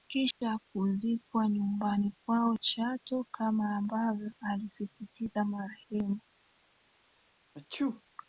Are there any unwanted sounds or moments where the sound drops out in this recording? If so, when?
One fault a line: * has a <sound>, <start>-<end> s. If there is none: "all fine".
* has a dropout, 0.3-0.4 s
* has a sneeze, 7.5-8.0 s